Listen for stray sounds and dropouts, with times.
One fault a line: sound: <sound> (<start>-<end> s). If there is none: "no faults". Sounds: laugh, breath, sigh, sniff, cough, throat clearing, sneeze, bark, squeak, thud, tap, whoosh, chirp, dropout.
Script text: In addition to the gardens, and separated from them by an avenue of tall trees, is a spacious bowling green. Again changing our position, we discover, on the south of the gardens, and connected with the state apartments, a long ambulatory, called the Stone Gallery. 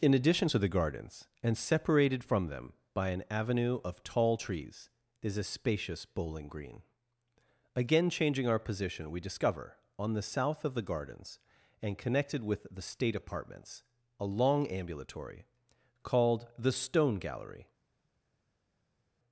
no faults